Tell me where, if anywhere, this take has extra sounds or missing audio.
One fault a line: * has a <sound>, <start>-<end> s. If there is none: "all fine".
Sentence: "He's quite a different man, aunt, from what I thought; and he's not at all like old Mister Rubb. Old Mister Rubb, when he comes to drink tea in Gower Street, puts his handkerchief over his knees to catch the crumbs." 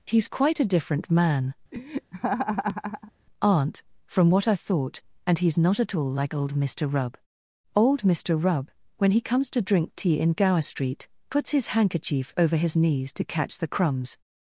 * has a laugh, 1.7-3.1 s